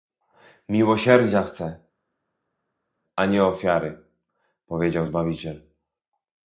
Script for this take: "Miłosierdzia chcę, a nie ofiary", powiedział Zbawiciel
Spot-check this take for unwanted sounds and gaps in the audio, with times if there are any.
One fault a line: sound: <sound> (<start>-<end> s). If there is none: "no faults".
no faults